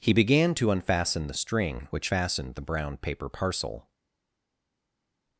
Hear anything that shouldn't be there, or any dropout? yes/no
no